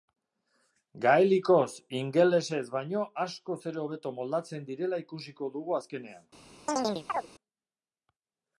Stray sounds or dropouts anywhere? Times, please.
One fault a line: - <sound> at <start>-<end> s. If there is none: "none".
- chirp at 6.7-7.3 s